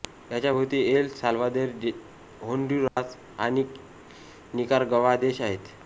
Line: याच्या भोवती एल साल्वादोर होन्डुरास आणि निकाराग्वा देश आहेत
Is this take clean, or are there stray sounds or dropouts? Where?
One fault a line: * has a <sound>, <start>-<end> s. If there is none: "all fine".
* has a dropout, 2.9-3.0 s